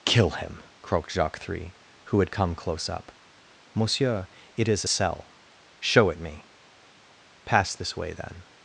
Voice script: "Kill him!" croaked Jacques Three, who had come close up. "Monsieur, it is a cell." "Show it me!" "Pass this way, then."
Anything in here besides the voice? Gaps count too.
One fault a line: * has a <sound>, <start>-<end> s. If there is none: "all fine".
all fine